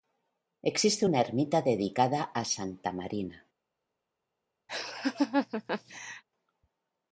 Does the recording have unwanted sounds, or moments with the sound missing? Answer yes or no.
yes